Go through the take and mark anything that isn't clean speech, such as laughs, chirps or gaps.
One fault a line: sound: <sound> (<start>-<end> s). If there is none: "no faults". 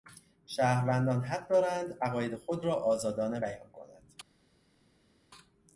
no faults